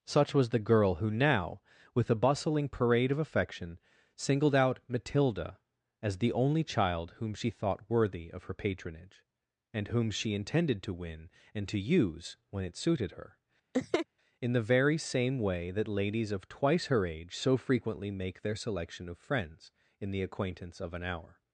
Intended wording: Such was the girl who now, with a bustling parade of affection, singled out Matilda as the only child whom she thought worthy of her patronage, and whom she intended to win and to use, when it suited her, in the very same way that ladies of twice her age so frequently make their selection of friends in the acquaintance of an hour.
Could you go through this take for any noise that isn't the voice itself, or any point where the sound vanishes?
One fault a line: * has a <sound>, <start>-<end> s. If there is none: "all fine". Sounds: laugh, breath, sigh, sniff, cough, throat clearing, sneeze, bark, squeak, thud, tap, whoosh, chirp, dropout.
* has a laugh, 13.7-14.1 s